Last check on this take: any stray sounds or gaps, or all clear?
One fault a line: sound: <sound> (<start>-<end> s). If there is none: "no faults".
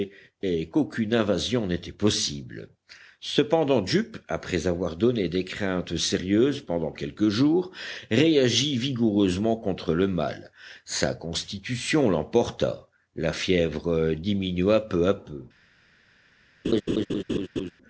sound: laugh (16.6-17.7 s)